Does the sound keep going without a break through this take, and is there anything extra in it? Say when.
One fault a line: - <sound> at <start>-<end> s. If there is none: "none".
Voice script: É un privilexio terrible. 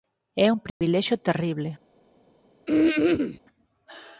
- dropout at 0.7-0.8 s
- throat clearing at 2.7-3.4 s